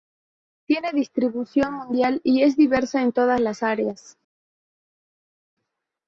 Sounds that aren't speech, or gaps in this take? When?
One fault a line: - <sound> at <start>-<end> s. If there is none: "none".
none